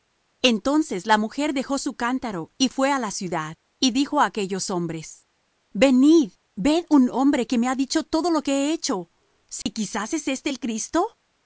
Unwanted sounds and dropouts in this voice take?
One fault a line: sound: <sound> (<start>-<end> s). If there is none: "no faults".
sound: dropout (9.6-9.7 s)